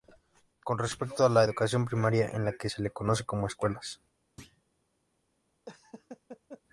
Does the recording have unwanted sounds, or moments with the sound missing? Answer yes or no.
yes